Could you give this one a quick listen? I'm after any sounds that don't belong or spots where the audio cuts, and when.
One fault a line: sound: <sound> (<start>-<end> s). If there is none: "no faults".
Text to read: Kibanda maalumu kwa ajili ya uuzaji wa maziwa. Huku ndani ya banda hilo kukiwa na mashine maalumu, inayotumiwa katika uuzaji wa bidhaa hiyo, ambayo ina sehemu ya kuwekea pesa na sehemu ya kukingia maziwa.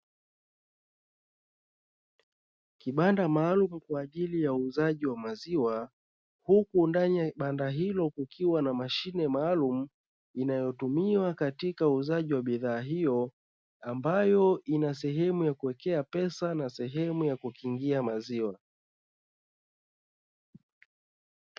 no faults